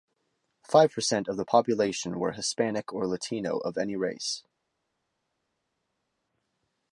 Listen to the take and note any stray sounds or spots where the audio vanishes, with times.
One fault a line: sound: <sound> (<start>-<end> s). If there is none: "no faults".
no faults